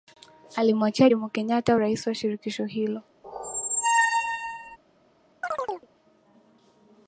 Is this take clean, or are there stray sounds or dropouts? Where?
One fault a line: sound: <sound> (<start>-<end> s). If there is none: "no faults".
sound: squeak (3.2-4.8 s)
sound: chirp (5.4-5.9 s)